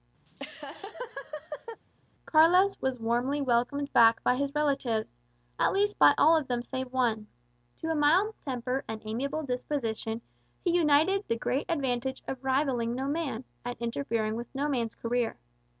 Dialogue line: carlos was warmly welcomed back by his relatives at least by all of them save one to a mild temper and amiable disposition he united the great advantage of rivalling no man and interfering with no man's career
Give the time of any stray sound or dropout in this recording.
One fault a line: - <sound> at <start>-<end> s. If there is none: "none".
- laugh at 0.2-1.8 s